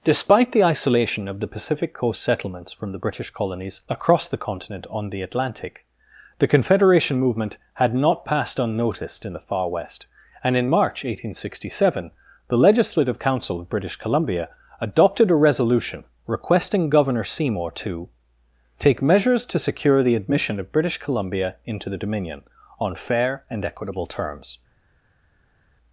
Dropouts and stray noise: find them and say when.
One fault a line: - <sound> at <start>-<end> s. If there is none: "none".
none